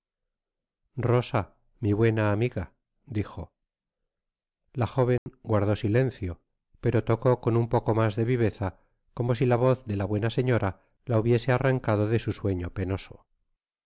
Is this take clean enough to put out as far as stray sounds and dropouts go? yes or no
no